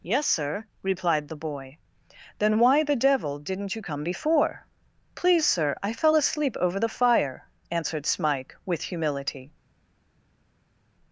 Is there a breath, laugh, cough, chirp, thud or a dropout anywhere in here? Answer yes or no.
no